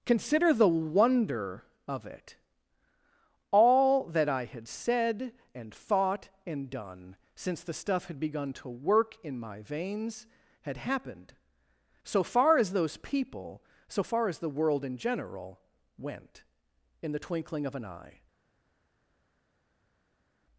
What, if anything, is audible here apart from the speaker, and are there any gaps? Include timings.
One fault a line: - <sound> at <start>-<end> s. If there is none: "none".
none